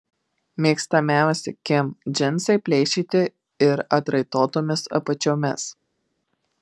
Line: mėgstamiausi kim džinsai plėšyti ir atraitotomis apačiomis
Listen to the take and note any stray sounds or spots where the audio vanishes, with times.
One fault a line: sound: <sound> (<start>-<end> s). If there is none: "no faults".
no faults